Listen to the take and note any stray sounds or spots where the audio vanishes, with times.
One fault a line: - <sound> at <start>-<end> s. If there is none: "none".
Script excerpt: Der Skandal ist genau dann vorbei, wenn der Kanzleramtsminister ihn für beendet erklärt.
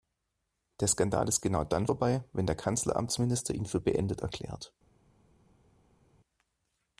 none